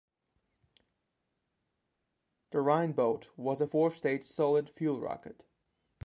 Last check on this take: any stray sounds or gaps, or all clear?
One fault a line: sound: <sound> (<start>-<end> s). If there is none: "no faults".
no faults